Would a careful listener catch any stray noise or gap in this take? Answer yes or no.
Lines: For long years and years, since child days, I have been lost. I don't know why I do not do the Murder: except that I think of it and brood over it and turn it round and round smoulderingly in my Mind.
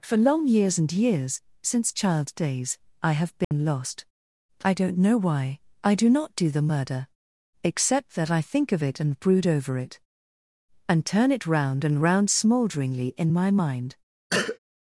yes